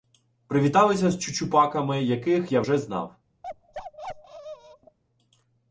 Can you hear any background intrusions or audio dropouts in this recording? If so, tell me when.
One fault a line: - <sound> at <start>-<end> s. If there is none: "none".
- bark at 3.4-5.0 s